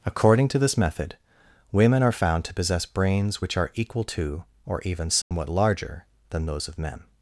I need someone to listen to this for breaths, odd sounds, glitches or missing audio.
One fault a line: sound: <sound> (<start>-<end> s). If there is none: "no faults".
sound: dropout (5.2-5.3 s)